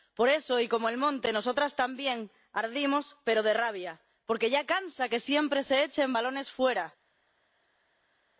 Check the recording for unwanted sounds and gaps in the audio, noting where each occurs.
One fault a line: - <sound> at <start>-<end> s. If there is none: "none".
none